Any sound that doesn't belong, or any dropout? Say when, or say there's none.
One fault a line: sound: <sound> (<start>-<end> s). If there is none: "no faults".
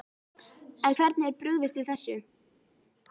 no faults